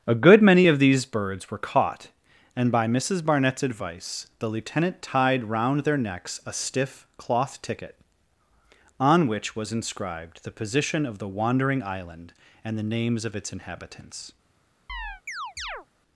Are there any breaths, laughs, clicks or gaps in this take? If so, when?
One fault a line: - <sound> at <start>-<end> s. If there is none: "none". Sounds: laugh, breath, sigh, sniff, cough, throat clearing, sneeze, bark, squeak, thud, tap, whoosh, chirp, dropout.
- chirp at 14.9-15.9 s